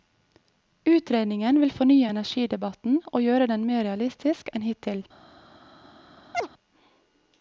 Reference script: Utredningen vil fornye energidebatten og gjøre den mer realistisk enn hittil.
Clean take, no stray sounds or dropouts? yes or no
no